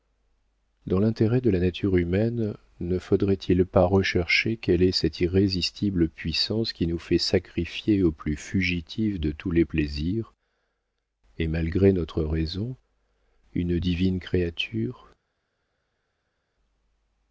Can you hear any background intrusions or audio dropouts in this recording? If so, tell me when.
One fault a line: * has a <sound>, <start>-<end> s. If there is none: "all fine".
all fine